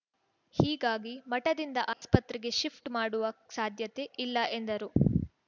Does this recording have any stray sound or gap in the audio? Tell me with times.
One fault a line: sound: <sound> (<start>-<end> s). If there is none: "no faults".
sound: dropout (1.9-2.0 s)